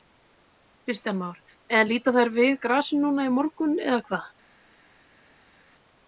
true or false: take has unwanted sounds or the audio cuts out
false